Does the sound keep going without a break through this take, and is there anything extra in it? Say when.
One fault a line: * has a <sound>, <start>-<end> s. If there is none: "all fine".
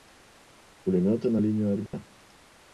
* has a dropout, 1.9-1.9 s